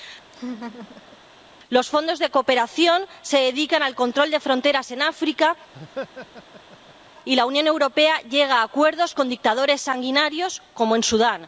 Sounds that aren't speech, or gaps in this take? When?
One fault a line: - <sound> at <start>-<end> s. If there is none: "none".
- laugh at 0.3-1.2 s
- laugh at 5.7-7.1 s